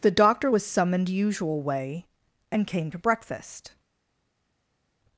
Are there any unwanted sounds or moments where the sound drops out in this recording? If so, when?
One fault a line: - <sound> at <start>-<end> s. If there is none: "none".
none